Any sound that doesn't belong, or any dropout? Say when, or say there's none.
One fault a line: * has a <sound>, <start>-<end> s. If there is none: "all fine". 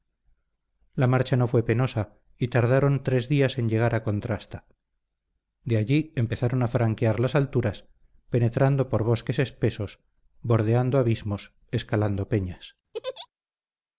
* has a laugh, 12.9-13.3 s